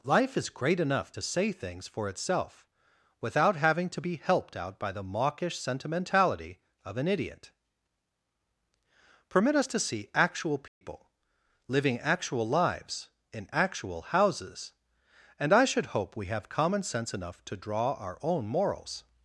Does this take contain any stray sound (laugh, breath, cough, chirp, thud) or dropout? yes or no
yes